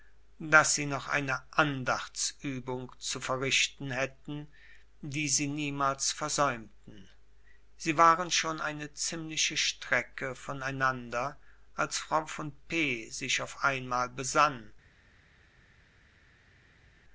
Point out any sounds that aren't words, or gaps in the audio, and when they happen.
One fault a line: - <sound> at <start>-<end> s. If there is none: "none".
none